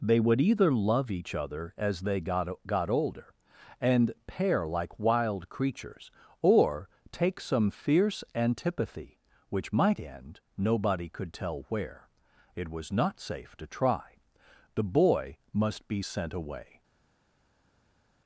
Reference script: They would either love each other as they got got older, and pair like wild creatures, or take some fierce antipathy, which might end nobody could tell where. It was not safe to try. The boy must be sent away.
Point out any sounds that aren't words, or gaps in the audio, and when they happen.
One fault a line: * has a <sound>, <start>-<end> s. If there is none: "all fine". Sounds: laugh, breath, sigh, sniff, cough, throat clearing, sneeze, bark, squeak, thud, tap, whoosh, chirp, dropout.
all fine